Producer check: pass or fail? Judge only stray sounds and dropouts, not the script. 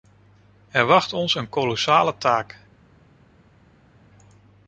pass